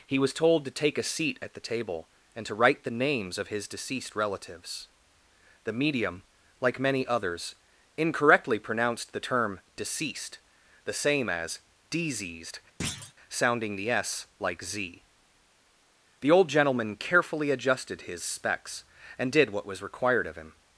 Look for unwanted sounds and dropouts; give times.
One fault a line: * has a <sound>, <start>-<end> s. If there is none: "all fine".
* has a thud, 12.8-13.1 s